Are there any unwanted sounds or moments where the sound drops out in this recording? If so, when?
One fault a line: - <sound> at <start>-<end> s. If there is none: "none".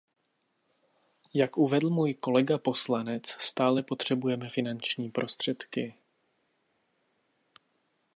none